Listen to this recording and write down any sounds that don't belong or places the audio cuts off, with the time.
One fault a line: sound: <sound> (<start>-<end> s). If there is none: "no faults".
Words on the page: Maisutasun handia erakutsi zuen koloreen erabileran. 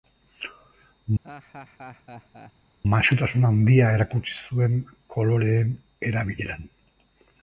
sound: laugh (1.2-2.5 s)